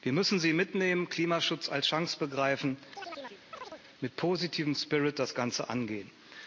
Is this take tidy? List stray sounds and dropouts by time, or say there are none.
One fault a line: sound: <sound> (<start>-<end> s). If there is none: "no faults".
sound: chirp (3.0-3.8 s)